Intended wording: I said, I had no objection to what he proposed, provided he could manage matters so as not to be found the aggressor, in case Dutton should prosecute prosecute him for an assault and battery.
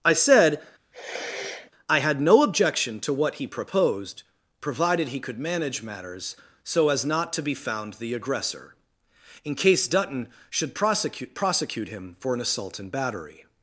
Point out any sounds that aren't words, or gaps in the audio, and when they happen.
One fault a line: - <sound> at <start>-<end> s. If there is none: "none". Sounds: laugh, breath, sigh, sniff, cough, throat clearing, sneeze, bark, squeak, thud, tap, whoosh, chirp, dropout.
- sniff at 0.9-1.7 s